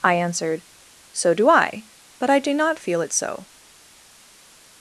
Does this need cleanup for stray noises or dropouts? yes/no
no